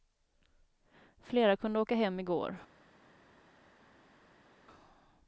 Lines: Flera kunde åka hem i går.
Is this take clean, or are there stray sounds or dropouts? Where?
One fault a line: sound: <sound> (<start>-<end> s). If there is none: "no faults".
no faults